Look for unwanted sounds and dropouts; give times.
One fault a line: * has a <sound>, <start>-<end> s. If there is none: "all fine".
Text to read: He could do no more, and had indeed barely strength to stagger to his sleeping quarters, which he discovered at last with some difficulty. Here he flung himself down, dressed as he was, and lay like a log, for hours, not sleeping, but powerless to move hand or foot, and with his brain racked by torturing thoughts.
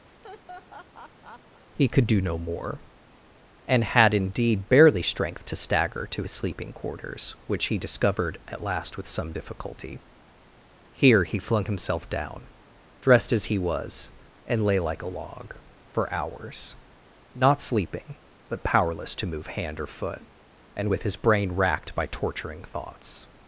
* has a laugh, 0.1-1.6 s